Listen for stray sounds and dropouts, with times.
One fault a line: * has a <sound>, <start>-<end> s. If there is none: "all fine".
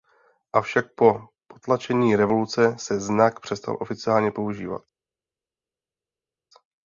all fine